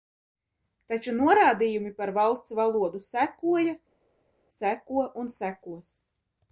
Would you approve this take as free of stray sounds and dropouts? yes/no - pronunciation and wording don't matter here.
yes